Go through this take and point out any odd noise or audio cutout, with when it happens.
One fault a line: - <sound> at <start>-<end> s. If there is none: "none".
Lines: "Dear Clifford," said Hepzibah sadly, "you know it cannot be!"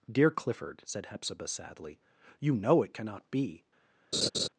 - laugh at 4.1-4.5 s